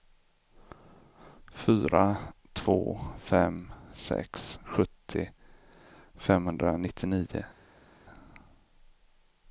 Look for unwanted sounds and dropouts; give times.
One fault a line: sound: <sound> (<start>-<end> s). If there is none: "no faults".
no faults